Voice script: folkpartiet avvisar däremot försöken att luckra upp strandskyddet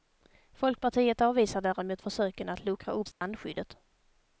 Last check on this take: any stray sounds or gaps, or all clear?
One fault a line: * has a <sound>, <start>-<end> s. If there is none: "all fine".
* has a dropout, 3.1-3.2 s